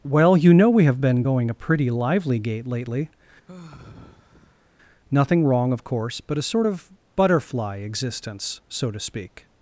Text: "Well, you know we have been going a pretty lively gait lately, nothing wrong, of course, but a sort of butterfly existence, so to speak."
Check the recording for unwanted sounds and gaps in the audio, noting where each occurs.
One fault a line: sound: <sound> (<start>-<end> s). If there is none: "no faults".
sound: sigh (3.5-4.7 s)